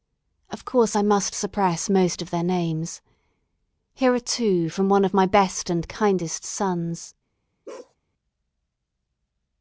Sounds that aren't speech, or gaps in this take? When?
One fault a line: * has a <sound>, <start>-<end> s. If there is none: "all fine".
* has a bark, 7.7-8.0 s